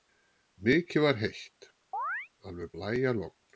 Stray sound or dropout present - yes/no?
yes